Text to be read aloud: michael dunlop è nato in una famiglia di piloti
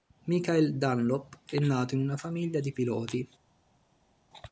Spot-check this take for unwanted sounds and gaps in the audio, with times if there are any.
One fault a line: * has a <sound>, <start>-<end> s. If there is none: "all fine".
all fine